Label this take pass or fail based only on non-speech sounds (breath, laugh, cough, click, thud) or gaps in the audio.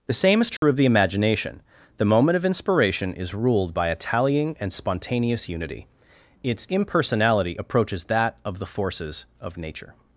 fail